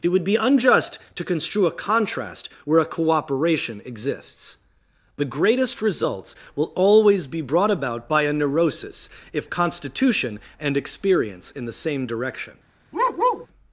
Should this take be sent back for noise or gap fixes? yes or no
yes